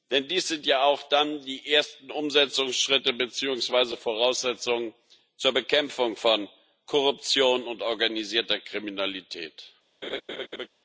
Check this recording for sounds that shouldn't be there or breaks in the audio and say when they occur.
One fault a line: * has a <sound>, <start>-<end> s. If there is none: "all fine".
* has a laugh, 10.0-10.7 s